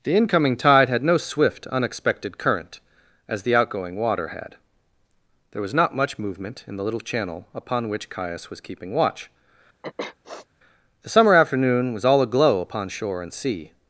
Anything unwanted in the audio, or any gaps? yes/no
yes